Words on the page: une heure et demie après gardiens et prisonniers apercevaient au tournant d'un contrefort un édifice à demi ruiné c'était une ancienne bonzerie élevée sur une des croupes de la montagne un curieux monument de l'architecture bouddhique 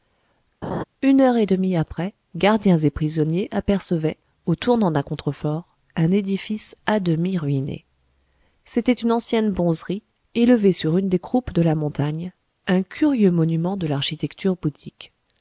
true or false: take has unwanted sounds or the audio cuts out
true